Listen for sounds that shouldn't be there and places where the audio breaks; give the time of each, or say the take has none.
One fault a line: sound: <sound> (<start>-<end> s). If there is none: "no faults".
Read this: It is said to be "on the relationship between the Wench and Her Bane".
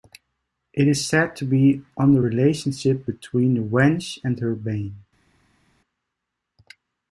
no faults